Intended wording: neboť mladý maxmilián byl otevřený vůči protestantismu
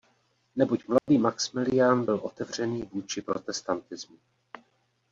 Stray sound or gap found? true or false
true